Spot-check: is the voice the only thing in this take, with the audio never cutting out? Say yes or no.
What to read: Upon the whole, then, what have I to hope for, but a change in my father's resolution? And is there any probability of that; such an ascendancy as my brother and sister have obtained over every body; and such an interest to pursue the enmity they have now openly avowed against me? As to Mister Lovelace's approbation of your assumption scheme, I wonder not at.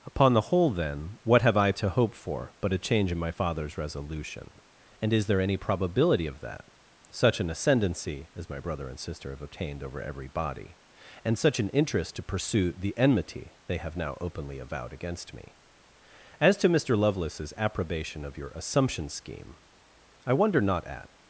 yes